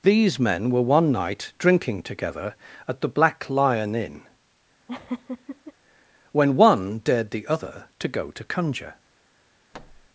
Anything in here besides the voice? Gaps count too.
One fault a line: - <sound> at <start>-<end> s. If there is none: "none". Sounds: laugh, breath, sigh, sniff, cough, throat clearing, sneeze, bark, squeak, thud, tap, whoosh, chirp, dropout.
- laugh at 4.9-5.7 s
- thud at 9.7-10.1 s